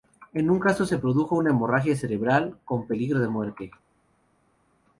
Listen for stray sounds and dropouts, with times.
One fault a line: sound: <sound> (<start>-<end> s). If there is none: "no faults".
no faults